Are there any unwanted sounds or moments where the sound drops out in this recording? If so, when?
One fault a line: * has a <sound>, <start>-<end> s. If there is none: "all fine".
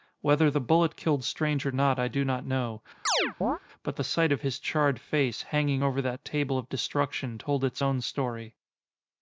* has a chirp, 3.1-3.6 s